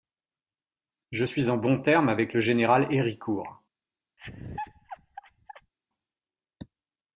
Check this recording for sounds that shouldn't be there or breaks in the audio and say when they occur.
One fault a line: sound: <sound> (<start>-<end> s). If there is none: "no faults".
sound: laugh (4.2-5.7 s)